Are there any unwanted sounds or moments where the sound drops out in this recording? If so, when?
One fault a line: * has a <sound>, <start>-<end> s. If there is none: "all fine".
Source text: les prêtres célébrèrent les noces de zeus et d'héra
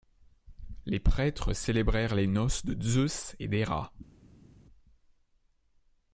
all fine